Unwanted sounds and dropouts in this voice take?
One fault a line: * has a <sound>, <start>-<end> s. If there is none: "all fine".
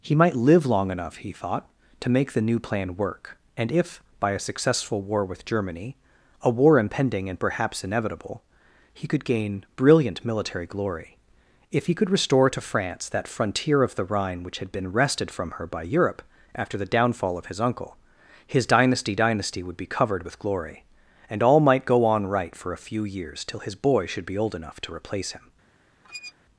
* has a squeak, 26.0-26.3 s